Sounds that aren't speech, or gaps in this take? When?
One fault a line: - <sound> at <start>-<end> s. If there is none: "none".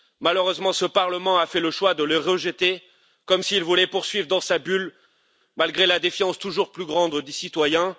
none